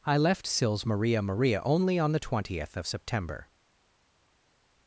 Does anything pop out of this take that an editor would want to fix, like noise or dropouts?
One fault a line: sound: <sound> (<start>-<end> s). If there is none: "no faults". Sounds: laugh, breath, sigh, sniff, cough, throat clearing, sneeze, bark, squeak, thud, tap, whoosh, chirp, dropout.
no faults